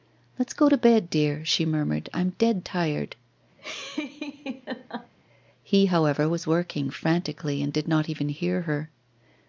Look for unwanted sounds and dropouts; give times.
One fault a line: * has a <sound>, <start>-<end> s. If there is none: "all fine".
* has a laugh, 3.6-5.1 s